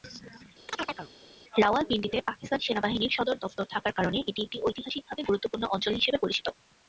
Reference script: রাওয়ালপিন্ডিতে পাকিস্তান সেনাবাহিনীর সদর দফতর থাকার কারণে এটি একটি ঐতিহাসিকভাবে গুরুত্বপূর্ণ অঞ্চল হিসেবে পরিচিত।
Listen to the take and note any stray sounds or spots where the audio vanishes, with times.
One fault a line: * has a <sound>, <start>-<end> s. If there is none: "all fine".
* has a chirp, 0.7-1.1 s